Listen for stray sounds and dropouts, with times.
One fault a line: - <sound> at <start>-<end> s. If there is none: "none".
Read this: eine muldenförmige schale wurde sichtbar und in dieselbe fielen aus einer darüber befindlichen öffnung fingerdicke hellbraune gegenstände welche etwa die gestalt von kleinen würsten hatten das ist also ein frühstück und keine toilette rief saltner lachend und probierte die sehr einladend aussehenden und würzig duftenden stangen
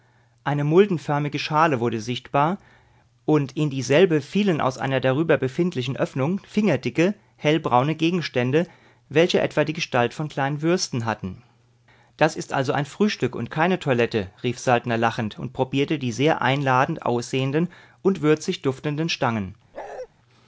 - bark at 19.7-20.1 s